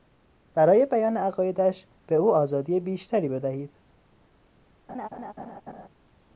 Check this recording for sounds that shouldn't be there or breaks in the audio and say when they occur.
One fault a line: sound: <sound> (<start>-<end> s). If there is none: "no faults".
sound: laugh (4.9-5.9 s)